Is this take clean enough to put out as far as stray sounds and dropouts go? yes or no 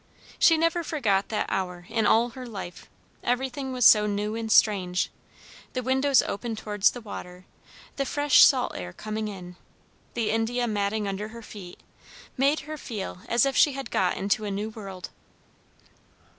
yes